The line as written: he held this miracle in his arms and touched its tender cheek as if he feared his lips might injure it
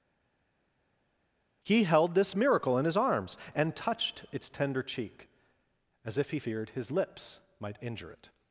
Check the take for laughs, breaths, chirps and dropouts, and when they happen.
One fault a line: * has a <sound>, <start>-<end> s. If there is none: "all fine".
all fine